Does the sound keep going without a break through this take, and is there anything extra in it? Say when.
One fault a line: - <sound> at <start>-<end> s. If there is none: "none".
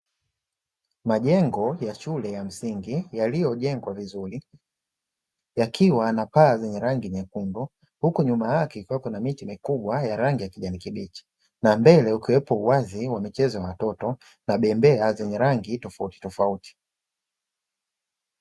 none